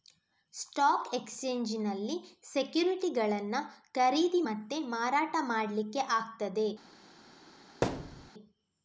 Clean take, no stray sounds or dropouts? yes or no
no